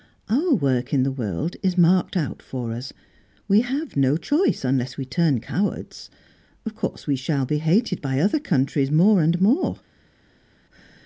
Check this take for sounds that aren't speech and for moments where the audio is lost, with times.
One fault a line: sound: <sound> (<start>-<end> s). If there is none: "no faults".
no faults